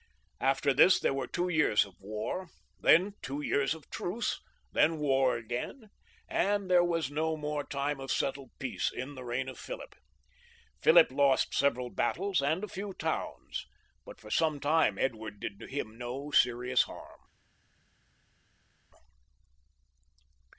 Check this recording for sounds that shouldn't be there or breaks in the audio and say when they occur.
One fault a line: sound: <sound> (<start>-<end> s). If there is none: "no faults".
no faults